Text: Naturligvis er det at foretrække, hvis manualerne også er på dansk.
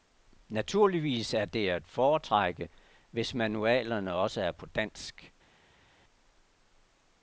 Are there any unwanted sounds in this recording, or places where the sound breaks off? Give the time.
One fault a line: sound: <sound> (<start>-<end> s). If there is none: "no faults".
no faults